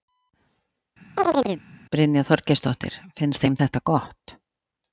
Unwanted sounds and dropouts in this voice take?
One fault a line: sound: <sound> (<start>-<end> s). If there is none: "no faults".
sound: chirp (1.2-1.6 s)